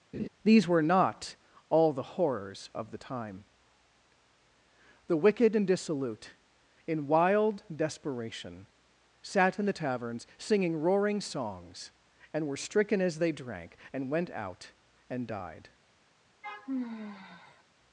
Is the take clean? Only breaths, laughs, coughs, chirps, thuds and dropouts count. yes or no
no